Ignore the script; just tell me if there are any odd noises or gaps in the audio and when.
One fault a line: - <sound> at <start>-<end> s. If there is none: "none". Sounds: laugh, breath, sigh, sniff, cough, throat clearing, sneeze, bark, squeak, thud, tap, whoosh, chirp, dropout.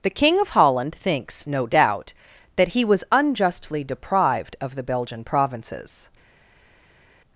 none